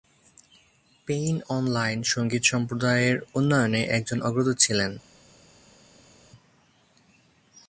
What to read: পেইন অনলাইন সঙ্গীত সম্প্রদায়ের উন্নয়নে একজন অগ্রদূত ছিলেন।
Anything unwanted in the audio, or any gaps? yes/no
no